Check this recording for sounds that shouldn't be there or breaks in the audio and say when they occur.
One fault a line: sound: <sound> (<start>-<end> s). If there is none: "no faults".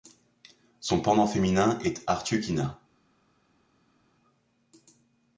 no faults